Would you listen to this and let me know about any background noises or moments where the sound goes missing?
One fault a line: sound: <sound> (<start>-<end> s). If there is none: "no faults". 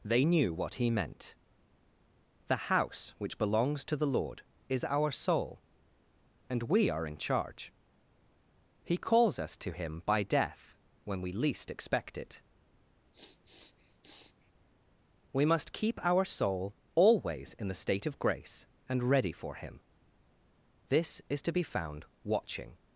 sound: sniff (13.1-14.5 s)